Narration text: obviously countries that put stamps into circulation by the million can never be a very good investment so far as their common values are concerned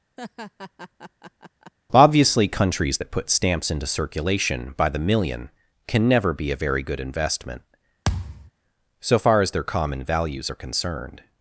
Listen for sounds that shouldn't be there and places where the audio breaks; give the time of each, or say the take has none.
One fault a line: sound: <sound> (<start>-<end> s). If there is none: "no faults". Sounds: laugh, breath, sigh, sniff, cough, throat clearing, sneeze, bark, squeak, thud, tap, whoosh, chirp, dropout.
sound: laugh (0.2-1.7 s)
sound: thud (8.0-8.5 s)